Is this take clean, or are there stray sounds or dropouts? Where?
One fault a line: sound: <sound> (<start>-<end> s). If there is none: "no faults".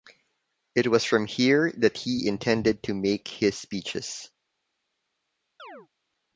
sound: chirp (5.6-5.9 s)